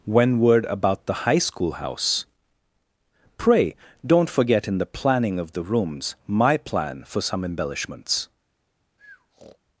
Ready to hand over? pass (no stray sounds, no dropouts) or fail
fail